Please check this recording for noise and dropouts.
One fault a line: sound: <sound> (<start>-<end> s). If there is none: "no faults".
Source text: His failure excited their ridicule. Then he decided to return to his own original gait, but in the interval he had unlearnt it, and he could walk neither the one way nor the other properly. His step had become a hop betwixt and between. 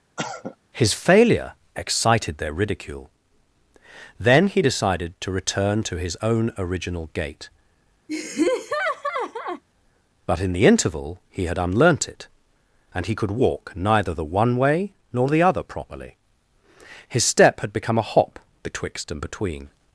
sound: cough (0.2-0.6 s)
sound: laugh (8.1-9.6 s)